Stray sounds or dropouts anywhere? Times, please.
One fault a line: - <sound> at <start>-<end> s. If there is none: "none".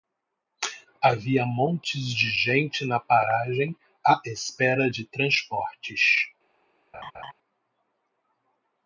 - laugh at 6.9-7.3 s